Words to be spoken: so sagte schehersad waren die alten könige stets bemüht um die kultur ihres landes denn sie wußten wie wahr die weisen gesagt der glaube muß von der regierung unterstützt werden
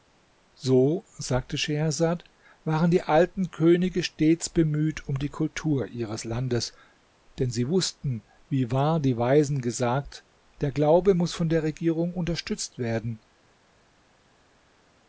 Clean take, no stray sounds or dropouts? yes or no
yes